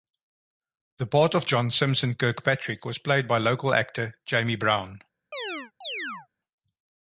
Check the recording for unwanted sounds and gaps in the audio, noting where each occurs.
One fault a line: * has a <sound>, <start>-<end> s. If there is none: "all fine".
* has a chirp, 5.3-6.3 s